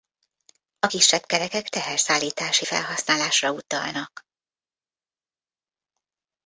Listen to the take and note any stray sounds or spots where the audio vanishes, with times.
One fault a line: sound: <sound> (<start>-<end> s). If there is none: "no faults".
no faults